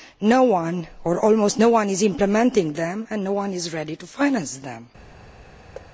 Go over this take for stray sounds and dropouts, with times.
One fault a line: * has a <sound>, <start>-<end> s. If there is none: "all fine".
* has a thud, 5.7-5.9 s